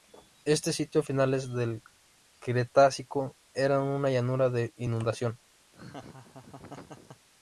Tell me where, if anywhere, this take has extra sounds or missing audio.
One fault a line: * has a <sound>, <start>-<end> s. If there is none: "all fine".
* has a laugh, 5.7-7.3 s